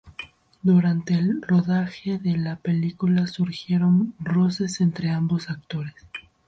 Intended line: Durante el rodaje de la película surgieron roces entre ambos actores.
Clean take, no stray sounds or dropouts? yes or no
yes